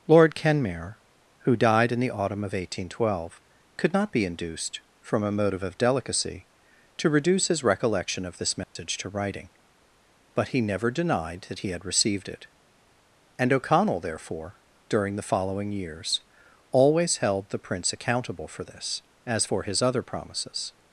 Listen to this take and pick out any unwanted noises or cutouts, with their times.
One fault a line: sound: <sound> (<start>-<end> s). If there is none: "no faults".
sound: dropout (8.6-8.8 s)